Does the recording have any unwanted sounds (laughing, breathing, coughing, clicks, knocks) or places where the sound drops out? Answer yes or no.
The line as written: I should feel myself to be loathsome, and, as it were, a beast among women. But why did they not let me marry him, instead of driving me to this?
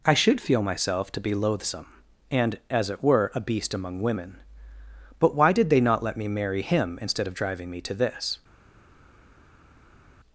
no